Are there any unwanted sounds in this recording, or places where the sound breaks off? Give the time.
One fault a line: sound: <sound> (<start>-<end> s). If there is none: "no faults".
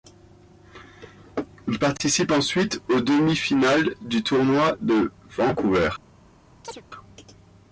sound: chirp (6.6-6.8 s)